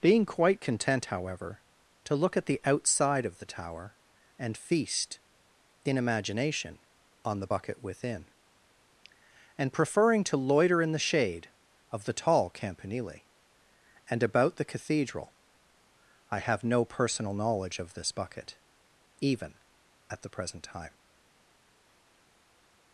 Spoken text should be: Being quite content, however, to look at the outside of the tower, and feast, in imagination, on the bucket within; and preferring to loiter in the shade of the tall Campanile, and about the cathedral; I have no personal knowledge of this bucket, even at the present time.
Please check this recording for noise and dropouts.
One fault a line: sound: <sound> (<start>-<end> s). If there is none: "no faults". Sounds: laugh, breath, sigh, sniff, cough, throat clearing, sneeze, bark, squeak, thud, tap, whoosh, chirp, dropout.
no faults